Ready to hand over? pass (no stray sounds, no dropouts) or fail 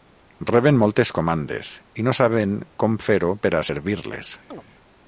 fail